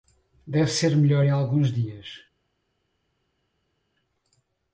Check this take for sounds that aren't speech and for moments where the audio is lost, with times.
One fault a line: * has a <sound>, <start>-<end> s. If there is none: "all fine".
all fine